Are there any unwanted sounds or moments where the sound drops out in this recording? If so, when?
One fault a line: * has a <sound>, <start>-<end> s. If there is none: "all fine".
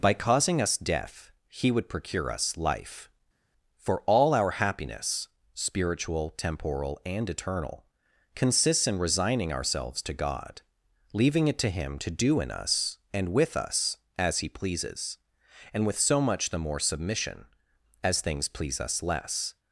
all fine